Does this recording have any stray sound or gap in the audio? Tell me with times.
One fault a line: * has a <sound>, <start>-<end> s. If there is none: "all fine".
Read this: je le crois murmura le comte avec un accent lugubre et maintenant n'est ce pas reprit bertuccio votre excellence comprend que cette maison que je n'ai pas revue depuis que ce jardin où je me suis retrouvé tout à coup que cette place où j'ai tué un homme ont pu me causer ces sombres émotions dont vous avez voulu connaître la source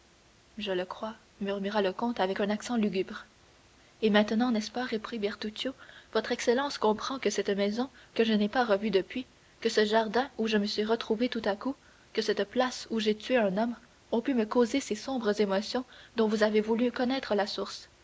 all fine